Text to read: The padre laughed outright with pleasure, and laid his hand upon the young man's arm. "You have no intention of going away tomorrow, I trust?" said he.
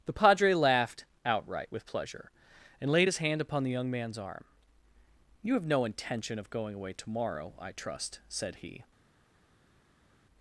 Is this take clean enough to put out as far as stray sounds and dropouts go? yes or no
yes